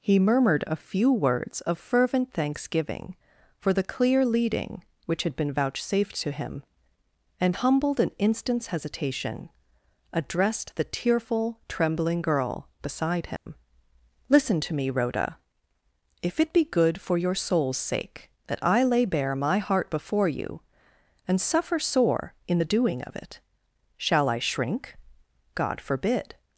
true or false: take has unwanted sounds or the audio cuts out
true